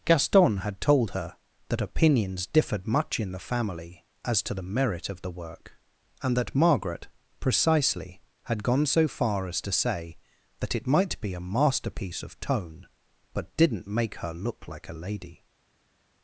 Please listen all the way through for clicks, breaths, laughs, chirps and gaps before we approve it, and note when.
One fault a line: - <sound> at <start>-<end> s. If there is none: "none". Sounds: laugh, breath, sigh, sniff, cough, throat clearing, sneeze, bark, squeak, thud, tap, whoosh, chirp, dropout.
none